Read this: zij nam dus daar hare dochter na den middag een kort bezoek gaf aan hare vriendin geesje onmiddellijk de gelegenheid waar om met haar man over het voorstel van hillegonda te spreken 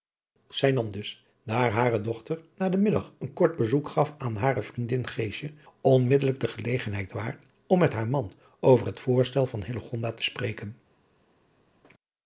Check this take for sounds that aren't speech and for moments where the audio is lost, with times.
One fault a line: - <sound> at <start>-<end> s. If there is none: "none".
none